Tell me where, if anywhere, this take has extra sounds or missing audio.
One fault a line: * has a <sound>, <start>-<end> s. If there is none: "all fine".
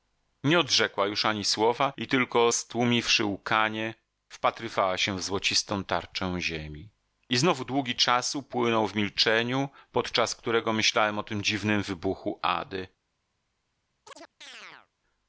* has a chirp, 14.0-14.9 s